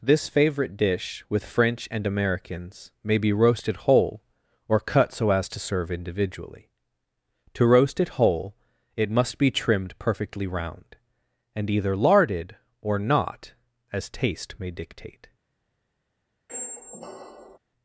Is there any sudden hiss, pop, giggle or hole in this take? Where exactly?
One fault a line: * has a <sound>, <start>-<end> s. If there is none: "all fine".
* has a squeak, 16.5-17.6 s